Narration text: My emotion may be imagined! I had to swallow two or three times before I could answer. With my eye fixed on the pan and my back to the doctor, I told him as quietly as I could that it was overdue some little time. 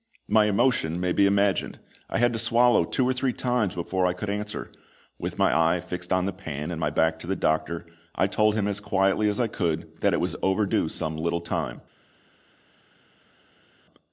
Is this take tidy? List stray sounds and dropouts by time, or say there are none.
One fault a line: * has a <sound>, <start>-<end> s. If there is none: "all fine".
all fine